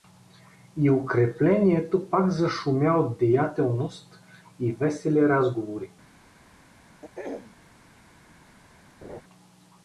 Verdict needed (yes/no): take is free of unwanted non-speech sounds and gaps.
no